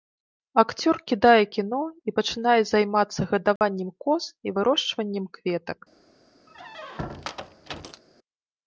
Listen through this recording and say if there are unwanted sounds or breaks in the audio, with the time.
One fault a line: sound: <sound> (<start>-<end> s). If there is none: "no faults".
sound: dropout (3.6-3.6 s)
sound: squeak (6.5-8.0 s)